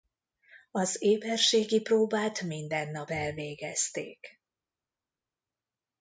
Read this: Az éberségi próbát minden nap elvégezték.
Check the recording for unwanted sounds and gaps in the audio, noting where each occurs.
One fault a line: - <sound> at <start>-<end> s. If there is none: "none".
none